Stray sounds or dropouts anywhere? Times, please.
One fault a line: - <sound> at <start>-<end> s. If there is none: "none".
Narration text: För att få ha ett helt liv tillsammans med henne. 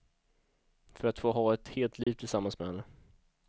- dropout at 2.0-2.1 s